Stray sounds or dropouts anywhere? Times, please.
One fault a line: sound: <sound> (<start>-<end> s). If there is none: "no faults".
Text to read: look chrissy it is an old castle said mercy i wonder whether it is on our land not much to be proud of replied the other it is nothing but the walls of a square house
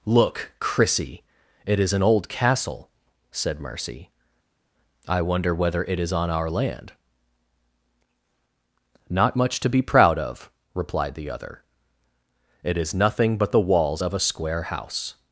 no faults